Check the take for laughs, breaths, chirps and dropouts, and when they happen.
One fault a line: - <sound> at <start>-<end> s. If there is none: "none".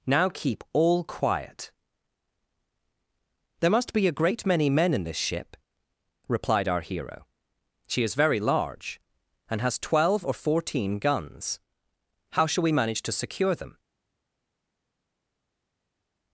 none